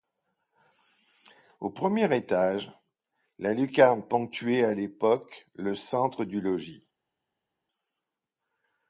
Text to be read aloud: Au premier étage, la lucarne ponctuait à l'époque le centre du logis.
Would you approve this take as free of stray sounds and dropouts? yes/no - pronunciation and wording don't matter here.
yes